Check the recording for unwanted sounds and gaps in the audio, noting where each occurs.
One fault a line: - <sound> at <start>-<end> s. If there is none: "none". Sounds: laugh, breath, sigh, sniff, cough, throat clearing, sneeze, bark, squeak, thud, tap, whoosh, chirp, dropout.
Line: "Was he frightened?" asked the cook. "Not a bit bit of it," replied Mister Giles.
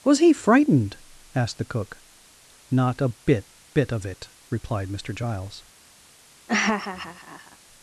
- laugh at 6.5-7.6 s